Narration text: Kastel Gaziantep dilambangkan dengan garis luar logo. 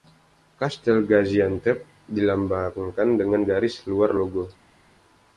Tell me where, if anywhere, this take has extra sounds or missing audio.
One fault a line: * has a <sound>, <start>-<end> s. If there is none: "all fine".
all fine